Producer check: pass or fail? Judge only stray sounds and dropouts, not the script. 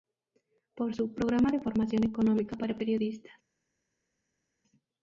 pass